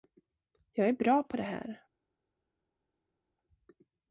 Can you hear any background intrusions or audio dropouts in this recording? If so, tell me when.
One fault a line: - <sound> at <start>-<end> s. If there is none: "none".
none